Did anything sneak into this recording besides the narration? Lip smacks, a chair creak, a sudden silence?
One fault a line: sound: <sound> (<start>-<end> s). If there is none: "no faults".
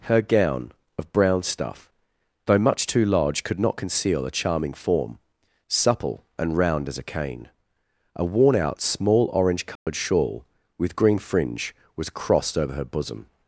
sound: dropout (9.8-9.9 s)